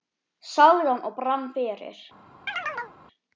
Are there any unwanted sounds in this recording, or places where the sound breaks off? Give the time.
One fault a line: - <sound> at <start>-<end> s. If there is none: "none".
- chirp at 2.5-3.0 s